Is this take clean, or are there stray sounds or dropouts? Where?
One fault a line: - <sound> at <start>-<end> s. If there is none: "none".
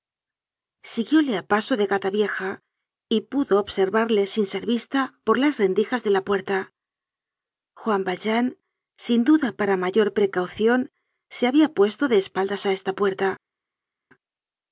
none